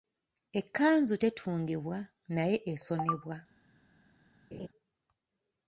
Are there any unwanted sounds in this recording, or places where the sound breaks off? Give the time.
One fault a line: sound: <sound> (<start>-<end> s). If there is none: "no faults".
sound: laugh (4.5-4.7 s)